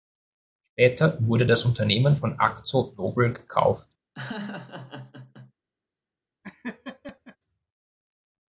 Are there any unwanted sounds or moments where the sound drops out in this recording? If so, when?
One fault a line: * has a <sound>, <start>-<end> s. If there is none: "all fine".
* has a laugh, 4.2-5.5 s
* has a laugh, 6.4-7.4 s